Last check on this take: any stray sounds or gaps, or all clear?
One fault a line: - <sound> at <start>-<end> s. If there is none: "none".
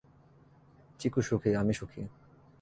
none